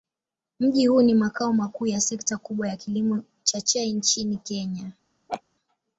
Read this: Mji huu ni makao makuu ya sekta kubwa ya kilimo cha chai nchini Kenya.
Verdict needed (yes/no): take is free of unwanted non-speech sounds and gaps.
no